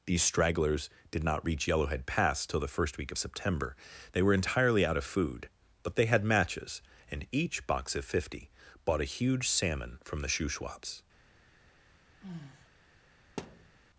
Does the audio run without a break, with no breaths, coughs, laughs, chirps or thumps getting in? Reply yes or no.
no